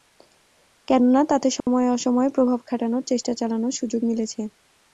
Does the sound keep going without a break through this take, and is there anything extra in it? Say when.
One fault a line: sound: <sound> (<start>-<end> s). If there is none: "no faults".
sound: dropout (1.6-1.7 s)